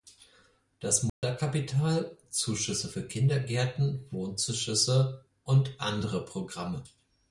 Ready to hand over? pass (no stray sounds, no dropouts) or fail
fail